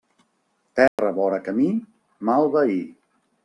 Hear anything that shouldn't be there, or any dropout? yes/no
yes